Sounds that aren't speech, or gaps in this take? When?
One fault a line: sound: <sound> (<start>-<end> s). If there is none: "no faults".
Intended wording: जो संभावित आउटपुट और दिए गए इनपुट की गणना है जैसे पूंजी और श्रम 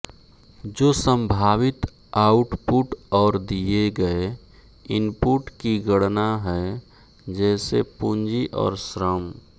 no faults